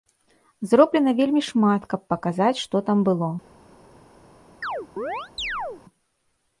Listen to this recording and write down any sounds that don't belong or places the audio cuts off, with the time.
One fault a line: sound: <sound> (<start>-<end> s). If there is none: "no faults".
sound: chirp (4.6-5.8 s)